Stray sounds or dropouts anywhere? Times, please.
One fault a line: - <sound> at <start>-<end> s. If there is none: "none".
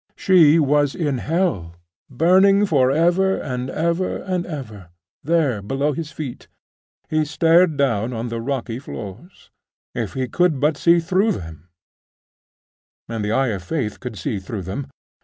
none